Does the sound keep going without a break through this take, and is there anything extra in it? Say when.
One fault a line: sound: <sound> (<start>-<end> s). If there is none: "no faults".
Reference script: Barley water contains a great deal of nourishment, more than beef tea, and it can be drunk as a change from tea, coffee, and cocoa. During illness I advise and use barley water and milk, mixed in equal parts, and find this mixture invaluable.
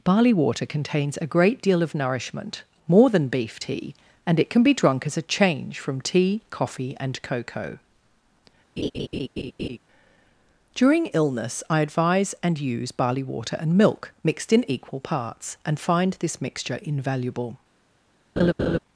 sound: laugh (8.8-9.8 s)
sound: laugh (18.4-18.8 s)